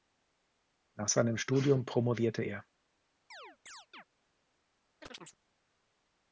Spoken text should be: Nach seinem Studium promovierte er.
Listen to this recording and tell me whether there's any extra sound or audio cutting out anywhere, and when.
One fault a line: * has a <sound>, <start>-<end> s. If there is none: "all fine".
* has a chirp, 3.3-4.0 s
* has a chirp, 5.0-5.4 s